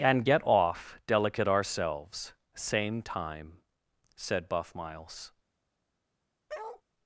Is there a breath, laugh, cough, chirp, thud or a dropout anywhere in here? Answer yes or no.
yes